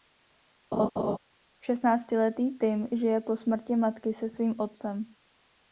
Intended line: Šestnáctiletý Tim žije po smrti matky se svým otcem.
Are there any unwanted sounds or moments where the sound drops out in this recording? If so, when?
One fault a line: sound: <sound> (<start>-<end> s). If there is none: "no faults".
sound: laugh (0.7-1.2 s)